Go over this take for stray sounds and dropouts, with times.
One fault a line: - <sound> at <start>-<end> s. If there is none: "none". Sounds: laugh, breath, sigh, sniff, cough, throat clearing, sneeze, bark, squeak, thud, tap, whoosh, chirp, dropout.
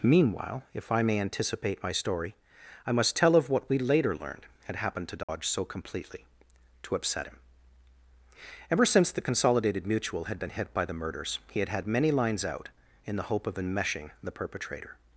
- dropout at 5.2-5.3 s